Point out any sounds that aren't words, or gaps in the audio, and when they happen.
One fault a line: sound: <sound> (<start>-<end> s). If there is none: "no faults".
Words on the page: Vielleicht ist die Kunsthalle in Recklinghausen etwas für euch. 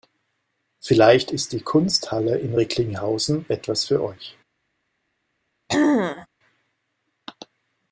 sound: throat clearing (5.7-6.3 s)